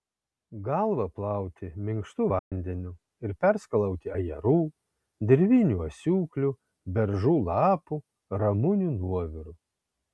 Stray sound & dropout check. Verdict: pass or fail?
fail